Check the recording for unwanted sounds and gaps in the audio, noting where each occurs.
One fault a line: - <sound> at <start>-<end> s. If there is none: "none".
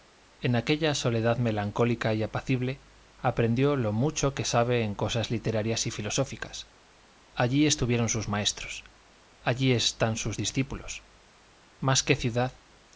none